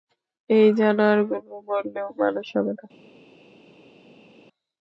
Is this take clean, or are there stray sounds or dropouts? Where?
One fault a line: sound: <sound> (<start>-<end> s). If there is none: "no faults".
no faults